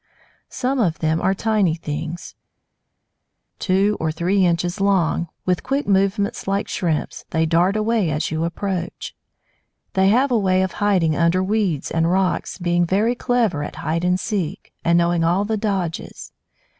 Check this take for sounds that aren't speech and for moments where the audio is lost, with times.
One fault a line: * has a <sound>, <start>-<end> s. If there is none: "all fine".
all fine